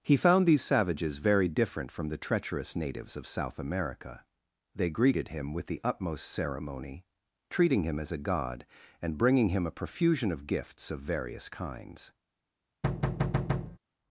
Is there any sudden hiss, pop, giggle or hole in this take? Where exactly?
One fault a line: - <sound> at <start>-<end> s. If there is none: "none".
- thud at 12.8-13.8 s